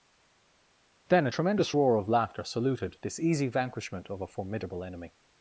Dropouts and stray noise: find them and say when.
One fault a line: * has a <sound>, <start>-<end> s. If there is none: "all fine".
all fine